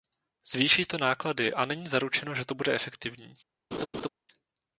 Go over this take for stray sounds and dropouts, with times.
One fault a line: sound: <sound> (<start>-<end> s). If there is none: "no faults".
sound: laugh (3.7-4.1 s)